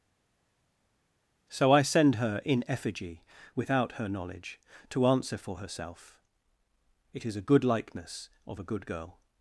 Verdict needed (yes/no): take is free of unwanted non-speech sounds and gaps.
yes